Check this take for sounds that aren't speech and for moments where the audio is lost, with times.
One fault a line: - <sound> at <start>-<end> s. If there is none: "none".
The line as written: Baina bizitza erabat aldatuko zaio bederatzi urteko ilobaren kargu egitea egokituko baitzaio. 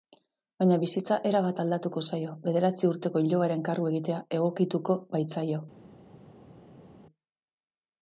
none